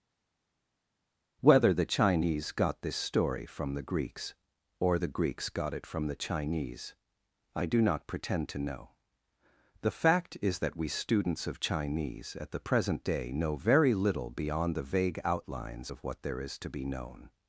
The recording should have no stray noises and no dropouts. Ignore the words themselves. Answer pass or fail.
pass